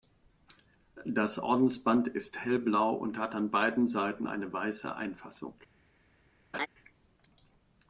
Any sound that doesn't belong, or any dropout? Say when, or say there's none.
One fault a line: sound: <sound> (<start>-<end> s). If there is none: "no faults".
sound: laugh (6.5-6.7 s)